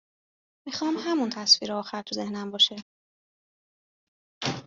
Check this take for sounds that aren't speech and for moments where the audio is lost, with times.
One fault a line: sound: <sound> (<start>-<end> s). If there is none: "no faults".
no faults